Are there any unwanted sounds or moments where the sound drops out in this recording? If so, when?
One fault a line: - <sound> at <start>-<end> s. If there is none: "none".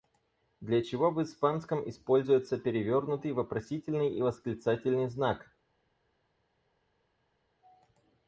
none